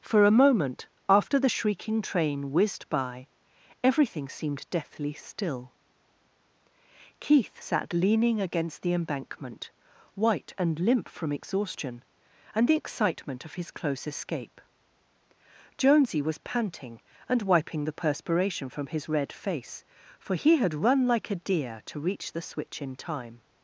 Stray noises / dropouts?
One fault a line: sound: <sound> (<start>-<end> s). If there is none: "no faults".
no faults